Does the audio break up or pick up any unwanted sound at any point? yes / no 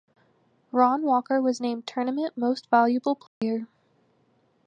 yes